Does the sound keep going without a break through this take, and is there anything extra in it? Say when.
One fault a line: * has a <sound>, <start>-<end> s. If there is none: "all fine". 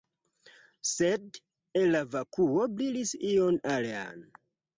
all fine